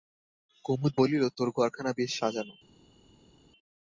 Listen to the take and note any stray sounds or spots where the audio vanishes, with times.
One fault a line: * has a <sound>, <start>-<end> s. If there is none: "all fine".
all fine